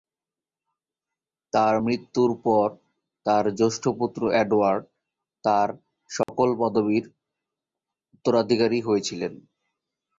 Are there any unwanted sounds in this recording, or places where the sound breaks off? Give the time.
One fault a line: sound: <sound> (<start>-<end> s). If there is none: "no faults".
sound: dropout (6.2-6.3 s)